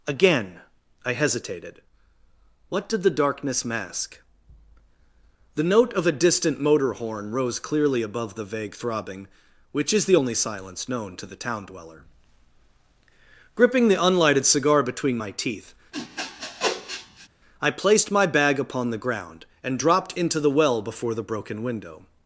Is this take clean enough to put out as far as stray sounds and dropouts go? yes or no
no